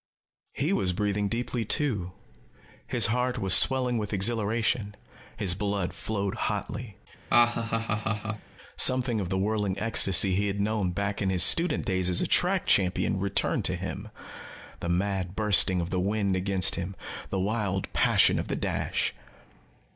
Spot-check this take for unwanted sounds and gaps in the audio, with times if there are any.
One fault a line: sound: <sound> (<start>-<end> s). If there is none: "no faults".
sound: laugh (7.3-8.5 s)